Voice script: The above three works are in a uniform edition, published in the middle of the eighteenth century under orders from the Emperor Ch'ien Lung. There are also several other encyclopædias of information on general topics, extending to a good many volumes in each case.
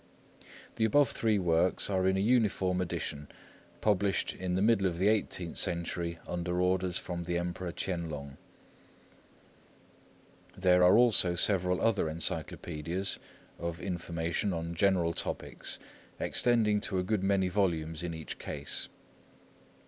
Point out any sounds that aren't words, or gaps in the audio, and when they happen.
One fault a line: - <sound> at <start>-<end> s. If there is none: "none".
none